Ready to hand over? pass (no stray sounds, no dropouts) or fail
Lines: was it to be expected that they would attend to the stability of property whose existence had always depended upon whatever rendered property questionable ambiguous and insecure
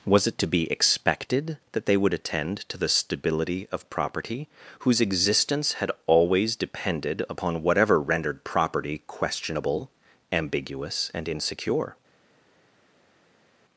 pass